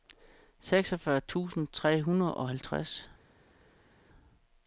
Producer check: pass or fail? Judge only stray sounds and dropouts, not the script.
pass